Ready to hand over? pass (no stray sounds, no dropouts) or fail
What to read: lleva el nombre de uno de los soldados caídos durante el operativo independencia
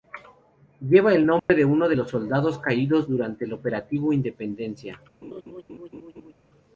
fail